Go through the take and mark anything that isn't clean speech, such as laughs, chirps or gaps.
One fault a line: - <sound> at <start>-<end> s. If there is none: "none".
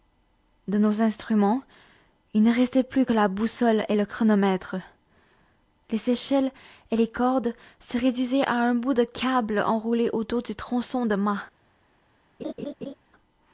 - laugh at 12.4-12.9 s